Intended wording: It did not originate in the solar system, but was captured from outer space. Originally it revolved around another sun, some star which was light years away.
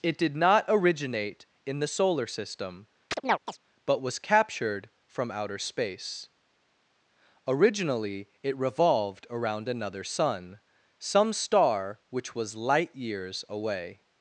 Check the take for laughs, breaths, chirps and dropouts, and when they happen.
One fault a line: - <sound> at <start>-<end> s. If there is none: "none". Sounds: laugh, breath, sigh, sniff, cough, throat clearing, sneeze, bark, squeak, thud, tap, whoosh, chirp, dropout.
- chirp at 3.1-3.6 s